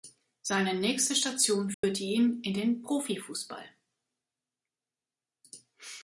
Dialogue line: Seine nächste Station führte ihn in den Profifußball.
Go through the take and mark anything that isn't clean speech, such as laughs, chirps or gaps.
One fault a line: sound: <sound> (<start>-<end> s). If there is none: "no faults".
sound: dropout (1.7-1.8 s)